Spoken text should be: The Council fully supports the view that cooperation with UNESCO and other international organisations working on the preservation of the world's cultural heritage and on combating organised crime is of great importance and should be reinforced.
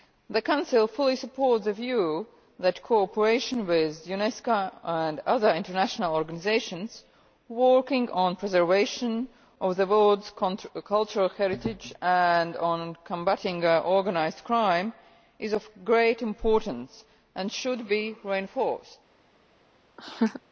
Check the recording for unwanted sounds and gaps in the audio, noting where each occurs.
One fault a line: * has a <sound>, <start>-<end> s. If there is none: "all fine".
* has a laugh, 20.0-20.4 s